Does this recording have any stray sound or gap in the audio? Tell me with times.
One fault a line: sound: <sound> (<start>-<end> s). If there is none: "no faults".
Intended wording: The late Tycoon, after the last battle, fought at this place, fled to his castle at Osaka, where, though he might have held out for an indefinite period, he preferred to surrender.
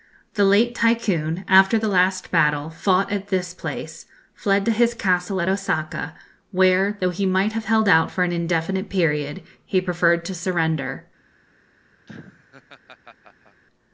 sound: laugh (12.1-13.6 s)